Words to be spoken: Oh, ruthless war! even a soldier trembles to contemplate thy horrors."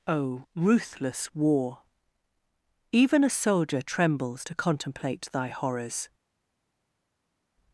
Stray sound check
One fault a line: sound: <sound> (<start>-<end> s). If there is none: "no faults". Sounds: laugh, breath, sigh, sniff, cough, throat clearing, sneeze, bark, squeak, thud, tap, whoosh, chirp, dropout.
no faults